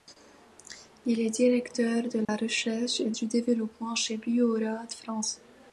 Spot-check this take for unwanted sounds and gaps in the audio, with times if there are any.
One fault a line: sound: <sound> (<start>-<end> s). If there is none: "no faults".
sound: dropout (2.2-2.3 s)